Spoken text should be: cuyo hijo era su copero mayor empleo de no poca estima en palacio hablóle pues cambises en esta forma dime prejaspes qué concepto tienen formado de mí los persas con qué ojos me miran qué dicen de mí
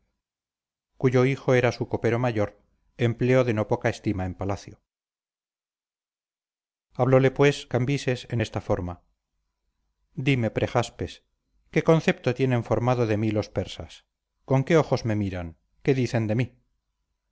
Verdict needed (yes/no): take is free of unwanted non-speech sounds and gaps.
yes